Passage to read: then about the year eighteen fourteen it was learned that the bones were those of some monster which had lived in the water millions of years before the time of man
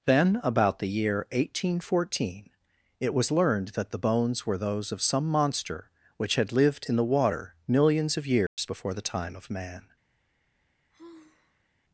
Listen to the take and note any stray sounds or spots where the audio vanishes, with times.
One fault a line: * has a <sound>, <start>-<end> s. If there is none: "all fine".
* has a dropout, 8.5-8.6 s
* has a sigh, 10.9-11.7 s